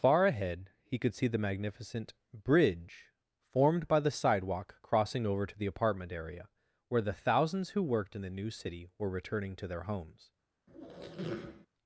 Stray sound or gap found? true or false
true